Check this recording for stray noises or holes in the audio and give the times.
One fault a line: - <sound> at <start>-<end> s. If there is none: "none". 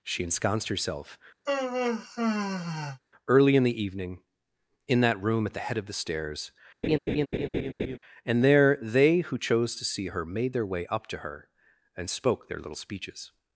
- sigh at 1.5-3.0 s
- laugh at 6.8-8.0 s